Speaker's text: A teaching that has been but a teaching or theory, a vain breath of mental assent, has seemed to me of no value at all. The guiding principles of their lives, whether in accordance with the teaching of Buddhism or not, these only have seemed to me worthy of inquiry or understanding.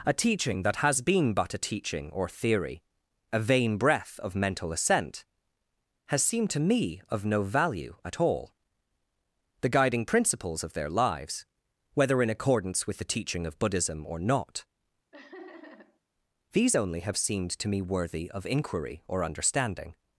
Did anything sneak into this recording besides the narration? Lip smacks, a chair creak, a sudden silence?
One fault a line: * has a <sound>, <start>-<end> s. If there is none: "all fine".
* has a laugh, 15.1-16.0 s